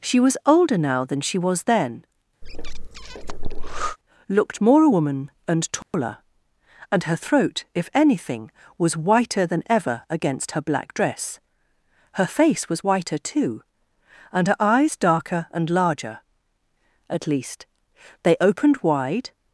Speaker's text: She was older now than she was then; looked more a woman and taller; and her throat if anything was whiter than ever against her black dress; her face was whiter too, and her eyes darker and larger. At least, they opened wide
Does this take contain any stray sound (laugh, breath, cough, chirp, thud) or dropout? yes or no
yes